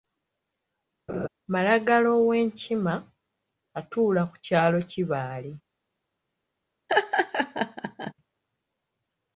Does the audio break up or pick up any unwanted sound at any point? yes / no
yes